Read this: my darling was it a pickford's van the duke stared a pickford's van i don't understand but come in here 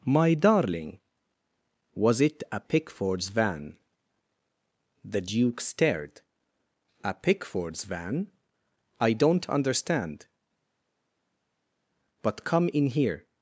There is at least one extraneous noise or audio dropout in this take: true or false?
false